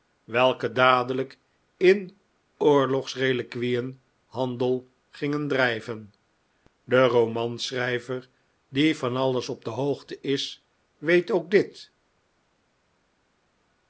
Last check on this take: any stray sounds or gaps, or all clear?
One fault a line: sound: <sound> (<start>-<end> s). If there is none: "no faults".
no faults